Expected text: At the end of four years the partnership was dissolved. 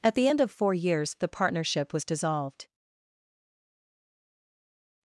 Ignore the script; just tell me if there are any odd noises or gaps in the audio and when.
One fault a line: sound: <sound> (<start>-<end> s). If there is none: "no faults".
no faults